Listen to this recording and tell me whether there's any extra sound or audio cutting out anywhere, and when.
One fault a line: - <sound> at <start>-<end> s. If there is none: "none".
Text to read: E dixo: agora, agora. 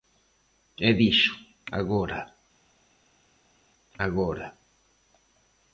none